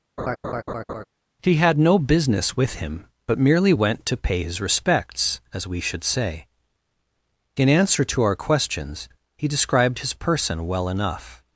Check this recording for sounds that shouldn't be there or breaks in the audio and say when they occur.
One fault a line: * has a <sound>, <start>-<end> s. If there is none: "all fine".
* has a laugh, 0.2-1.1 s